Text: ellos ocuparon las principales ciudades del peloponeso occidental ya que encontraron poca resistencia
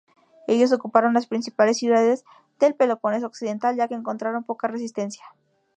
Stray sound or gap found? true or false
false